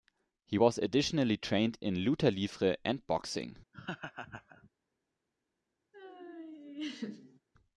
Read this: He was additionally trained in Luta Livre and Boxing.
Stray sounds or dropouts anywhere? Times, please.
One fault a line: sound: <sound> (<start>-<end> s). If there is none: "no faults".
sound: laugh (3.7-4.7 s)
sound: laugh (5.9-7.4 s)